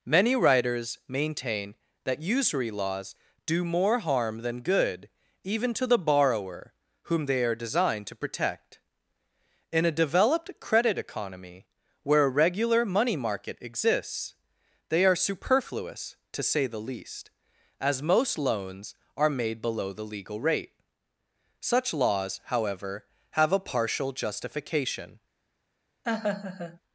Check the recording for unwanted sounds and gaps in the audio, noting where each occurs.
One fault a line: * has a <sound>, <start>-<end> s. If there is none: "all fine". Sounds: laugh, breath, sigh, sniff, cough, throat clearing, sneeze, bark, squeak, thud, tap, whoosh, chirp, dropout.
* has a laugh, 26.0-26.8 s